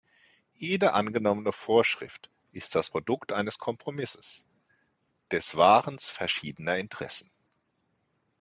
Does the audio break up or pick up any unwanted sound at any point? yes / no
no